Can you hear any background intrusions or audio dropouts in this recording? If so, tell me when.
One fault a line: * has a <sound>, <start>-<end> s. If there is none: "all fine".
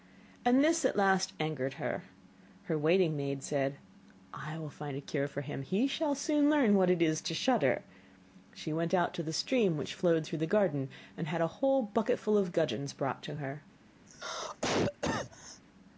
* has a cough, 14.1-15.6 s